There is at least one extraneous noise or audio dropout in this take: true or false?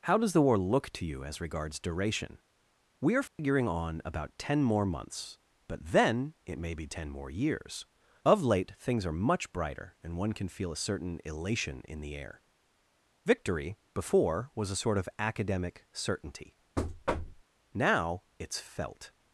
true